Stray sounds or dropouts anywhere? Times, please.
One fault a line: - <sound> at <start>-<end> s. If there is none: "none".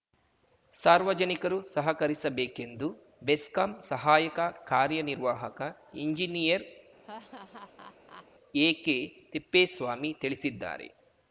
- laugh at 7.0-8.3 s